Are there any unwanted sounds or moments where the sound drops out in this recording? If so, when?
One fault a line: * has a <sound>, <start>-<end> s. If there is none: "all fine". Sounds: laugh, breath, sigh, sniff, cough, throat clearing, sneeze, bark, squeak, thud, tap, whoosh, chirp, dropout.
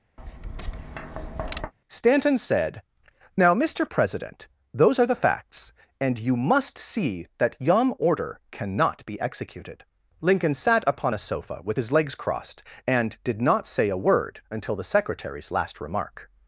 * has a tap, 0.2-1.7 s